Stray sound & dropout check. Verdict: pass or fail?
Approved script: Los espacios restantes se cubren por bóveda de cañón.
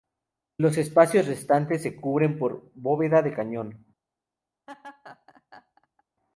fail